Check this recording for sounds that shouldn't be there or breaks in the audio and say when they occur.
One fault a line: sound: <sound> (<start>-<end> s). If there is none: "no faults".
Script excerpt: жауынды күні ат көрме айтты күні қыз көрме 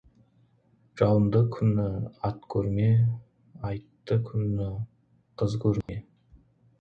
sound: dropout (5.8-5.9 s)